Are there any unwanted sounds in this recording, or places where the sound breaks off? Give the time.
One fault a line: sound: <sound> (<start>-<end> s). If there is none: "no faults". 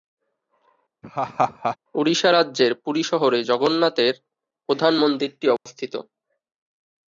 sound: laugh (1.0-1.8 s)
sound: dropout (5.6-5.7 s)